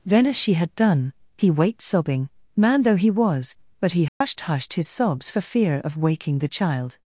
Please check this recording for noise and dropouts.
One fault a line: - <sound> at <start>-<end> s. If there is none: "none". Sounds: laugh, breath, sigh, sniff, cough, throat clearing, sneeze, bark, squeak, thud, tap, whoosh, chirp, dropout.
- dropout at 4.1-4.2 s